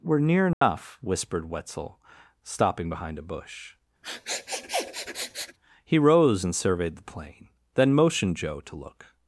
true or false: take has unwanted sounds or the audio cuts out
true